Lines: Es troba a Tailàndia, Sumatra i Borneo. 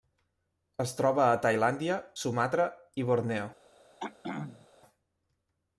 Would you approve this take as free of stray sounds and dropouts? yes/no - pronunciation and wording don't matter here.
no